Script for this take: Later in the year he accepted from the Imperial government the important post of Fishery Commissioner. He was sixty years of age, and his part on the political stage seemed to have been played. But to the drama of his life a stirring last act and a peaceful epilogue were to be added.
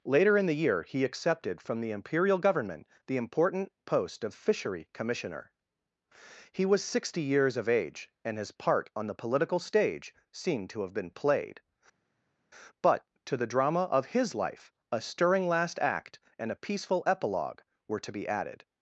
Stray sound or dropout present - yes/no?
no